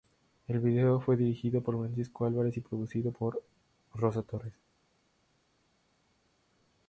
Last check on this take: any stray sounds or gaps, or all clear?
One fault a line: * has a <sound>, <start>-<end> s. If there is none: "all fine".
all fine